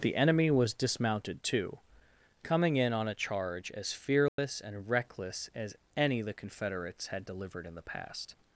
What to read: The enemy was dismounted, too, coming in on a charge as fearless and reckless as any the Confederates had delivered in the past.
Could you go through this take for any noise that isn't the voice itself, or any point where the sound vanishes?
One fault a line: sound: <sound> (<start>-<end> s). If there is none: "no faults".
sound: dropout (4.3-4.4 s)